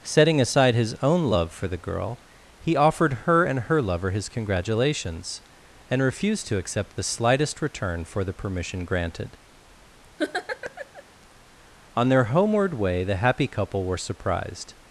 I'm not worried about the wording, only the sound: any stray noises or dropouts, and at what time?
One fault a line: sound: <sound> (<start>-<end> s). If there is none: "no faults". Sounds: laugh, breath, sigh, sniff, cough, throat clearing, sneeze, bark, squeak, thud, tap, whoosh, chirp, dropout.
sound: laugh (10.2-11.0 s)